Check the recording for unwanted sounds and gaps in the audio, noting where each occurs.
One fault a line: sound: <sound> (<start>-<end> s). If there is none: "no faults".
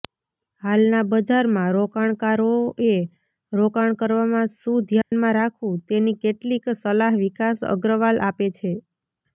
sound: dropout (5.0-5.1 s)